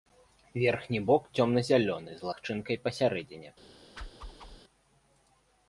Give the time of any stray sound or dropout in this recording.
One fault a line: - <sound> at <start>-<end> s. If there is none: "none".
- whoosh at 4.0-4.6 s